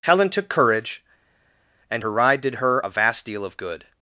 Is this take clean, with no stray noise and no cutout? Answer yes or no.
yes